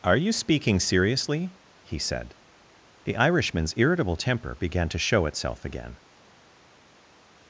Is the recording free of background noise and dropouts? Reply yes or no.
yes